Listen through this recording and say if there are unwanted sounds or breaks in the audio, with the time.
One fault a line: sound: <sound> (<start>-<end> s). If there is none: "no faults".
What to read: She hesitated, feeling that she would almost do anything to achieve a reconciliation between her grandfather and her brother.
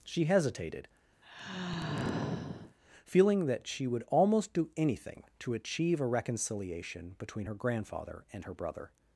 sound: sigh (1.2-2.8 s)